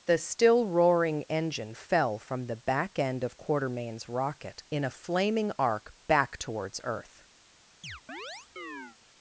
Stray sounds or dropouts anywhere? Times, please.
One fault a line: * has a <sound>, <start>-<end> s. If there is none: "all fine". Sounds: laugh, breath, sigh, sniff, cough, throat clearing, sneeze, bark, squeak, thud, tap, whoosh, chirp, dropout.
* has a chirp, 7.8-9.0 s